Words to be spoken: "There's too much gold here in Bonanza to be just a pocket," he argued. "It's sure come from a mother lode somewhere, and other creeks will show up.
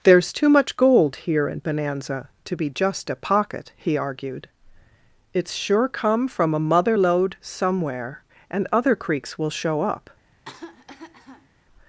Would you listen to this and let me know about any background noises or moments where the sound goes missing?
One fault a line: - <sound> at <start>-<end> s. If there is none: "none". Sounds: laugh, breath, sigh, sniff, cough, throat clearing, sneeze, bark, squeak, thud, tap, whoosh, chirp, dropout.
- cough at 10.3-11.5 s